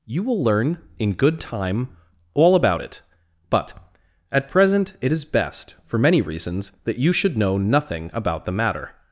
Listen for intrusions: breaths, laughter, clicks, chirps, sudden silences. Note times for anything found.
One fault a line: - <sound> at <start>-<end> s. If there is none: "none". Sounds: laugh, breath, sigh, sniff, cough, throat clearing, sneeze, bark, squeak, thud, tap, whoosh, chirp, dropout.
none